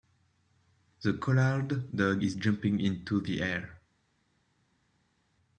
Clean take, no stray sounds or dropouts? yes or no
yes